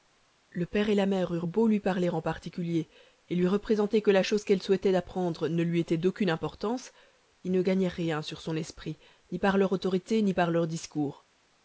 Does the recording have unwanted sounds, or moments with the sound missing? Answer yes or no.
no